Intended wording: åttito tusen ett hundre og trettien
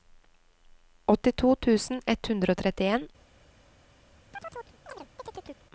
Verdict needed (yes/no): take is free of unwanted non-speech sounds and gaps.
no